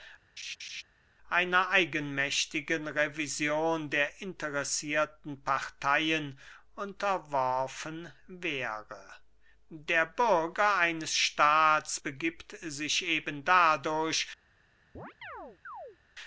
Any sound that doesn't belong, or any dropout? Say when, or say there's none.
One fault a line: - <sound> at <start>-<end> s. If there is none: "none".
- laugh at 0.4-0.8 s
- chirp at 14.9-16.0 s